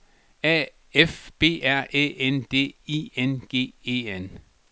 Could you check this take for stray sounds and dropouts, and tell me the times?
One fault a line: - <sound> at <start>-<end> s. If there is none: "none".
none